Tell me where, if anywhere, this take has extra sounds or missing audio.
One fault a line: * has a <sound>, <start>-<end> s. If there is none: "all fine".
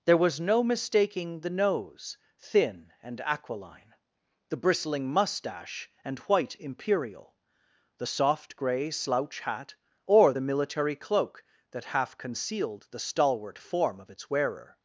all fine